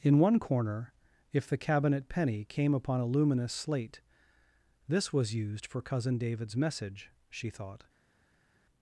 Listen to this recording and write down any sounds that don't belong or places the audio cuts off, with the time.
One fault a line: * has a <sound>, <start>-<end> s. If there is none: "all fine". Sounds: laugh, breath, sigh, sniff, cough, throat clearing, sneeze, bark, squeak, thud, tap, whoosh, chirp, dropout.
all fine